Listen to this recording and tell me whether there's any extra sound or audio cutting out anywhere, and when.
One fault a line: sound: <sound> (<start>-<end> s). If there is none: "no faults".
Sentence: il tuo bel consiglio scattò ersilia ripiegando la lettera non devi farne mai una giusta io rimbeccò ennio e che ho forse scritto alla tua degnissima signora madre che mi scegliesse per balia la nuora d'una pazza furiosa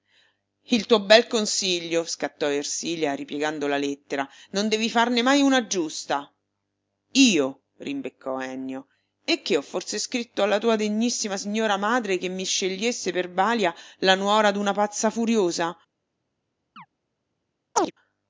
sound: chirp (16.8-16.9 s)
sound: chirp (17.8-17.9 s)